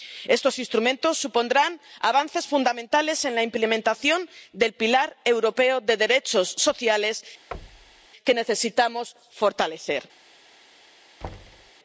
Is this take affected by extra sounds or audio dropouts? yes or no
yes